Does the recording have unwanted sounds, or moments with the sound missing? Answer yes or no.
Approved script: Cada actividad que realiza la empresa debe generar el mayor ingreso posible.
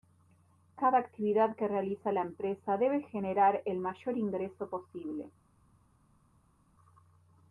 no